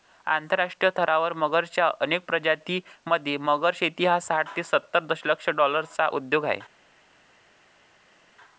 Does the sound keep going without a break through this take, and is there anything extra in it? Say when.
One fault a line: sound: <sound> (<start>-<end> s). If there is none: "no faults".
no faults